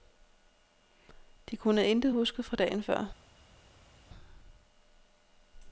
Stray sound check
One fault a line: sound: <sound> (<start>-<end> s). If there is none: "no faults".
no faults